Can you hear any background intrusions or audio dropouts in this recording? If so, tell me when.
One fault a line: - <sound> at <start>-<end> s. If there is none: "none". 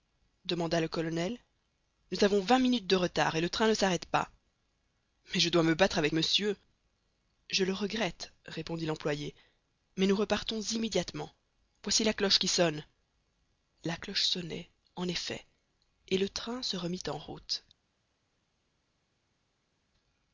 none